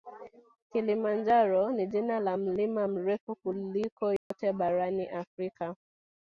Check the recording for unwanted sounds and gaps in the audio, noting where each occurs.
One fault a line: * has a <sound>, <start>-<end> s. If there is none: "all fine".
* has a dropout, 4.2-4.3 s